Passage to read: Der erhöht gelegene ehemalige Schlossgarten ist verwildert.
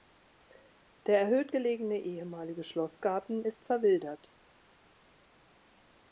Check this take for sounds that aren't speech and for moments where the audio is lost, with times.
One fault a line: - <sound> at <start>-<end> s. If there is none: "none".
none